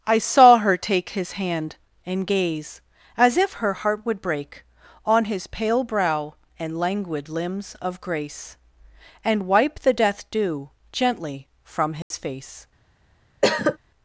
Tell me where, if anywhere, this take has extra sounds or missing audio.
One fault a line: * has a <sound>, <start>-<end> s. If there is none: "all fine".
* has a dropout, 12.0-12.1 s
* has a cough, 13.4-13.8 s